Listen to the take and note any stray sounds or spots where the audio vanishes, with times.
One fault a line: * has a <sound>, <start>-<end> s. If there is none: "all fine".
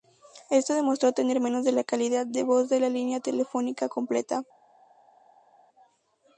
all fine